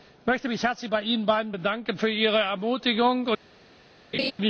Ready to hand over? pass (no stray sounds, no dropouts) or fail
fail